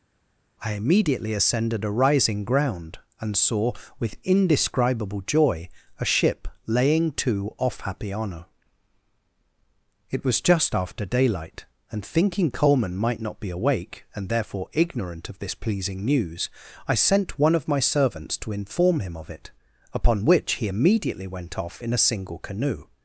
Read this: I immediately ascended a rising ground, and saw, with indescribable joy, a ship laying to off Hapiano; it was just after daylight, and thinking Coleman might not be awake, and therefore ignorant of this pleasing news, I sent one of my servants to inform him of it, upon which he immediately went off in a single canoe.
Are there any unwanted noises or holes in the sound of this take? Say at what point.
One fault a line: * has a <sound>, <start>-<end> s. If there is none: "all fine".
all fine